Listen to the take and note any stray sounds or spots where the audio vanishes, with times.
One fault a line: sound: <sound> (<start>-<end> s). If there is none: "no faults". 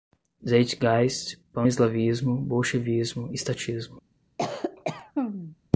sound: cough (4.4-5.6 s)